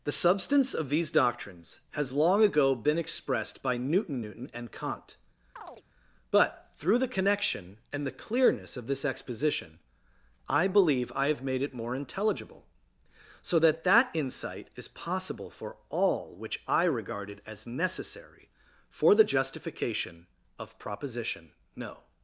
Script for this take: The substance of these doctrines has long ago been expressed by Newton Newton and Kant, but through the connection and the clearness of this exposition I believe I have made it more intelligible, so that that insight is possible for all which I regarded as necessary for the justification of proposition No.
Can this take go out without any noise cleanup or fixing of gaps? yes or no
no